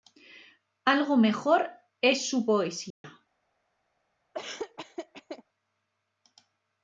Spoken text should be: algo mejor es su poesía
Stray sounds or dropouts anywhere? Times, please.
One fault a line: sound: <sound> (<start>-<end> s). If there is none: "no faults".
sound: dropout (2.9-3.0 s)
sound: laugh (4.3-5.4 s)